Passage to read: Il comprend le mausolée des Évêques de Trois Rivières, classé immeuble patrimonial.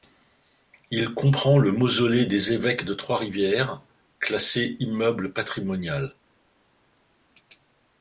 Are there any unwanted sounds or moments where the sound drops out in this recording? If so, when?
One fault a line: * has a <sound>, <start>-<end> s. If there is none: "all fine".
all fine